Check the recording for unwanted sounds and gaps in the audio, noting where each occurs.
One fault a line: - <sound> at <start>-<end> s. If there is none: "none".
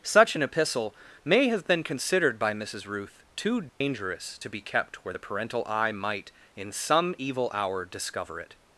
- dropout at 3.7-3.8 s